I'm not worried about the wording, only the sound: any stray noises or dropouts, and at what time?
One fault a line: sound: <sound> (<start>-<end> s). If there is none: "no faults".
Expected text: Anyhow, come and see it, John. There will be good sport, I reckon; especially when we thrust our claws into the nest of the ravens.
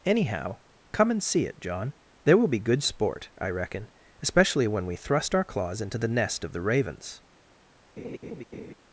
sound: laugh (8.0-8.7 s)